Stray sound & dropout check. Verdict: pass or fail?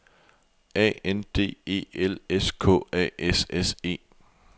pass